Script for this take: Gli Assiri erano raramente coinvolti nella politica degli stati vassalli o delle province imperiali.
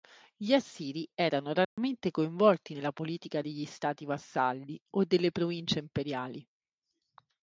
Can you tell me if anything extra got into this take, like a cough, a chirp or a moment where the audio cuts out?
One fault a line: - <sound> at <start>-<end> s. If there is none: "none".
- dropout at 1.6-1.8 s